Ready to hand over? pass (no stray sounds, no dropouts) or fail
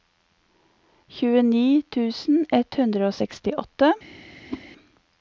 fail